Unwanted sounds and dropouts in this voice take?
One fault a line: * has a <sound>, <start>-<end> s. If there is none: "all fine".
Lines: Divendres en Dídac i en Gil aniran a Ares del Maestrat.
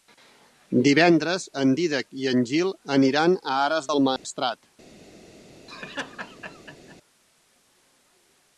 * has a dropout, 4.2-4.2 s
* has a laugh, 5.7-7.0 s